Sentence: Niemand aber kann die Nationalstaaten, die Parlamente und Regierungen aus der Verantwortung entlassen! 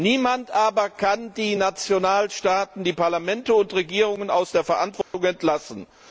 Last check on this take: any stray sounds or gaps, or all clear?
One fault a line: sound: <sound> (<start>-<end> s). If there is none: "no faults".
sound: dropout (5.0-5.1 s)